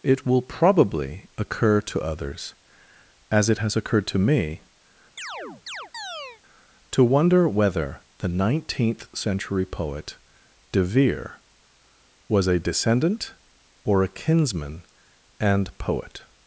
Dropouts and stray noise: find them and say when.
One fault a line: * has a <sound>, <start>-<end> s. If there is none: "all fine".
* has a chirp, 5.2-6.4 s